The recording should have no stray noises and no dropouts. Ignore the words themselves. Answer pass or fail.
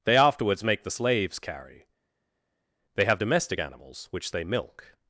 pass